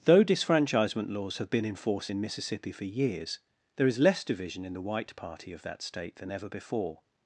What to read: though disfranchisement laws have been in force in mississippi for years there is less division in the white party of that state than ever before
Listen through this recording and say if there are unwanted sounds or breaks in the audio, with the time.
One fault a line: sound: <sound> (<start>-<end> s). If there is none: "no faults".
no faults